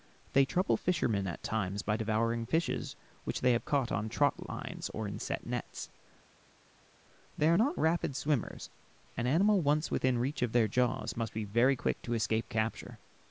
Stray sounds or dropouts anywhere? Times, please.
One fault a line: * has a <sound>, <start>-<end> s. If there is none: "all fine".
all fine